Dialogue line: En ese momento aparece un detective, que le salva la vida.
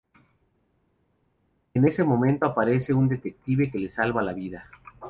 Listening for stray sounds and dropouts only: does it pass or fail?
pass